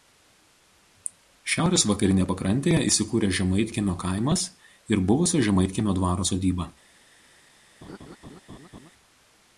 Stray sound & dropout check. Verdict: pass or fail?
fail